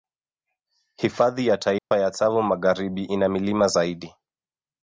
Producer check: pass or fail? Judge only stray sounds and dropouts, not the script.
fail